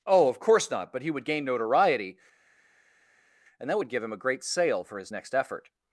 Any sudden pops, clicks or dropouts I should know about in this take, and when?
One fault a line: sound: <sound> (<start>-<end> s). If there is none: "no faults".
no faults